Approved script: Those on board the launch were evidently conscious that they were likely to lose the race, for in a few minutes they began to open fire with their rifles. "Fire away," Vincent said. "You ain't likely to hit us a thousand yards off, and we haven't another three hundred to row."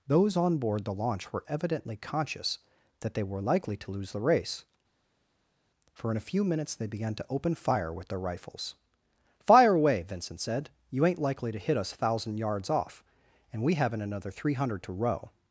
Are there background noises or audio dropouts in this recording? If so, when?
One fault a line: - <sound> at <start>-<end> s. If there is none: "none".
none